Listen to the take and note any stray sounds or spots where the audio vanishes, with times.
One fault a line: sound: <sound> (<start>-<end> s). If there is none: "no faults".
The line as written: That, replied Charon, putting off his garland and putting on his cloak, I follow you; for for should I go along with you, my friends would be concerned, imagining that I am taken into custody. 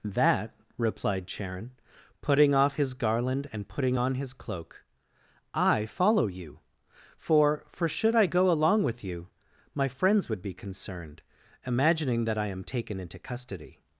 no faults